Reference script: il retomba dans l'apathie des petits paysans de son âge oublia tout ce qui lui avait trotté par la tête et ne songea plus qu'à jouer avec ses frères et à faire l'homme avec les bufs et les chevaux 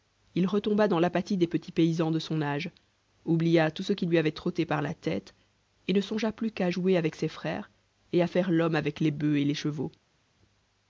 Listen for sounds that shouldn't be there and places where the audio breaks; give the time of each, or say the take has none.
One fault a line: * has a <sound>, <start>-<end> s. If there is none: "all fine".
all fine